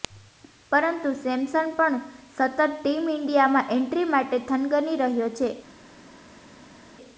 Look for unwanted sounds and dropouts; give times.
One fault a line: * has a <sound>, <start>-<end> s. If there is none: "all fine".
all fine